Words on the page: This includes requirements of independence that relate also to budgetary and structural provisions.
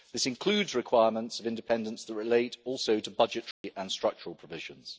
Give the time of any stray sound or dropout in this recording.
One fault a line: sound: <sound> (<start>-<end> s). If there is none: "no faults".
sound: dropout (3.5-3.6 s)